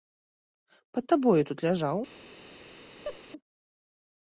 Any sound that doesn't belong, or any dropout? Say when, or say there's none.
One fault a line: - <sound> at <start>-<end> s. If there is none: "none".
- laugh at 3.0-3.2 s